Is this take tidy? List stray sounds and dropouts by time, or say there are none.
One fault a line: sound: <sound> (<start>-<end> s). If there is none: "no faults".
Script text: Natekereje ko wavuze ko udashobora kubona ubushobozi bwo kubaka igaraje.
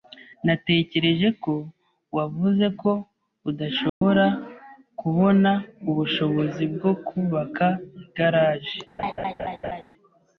sound: dropout (3.9-4.0 s)
sound: laugh (9.0-9.8 s)